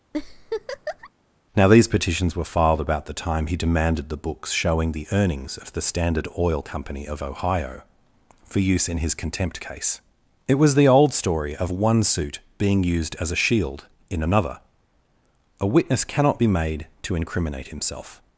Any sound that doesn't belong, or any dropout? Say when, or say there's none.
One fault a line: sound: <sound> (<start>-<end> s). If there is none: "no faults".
sound: laugh (0.1-1.1 s)